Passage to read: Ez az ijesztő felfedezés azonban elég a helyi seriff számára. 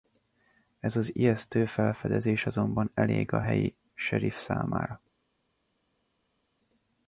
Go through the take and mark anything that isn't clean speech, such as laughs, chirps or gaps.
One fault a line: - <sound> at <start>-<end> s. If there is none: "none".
none